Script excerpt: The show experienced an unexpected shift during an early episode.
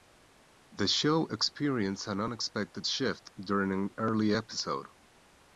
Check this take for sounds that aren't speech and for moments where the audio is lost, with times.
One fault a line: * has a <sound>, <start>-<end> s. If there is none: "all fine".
all fine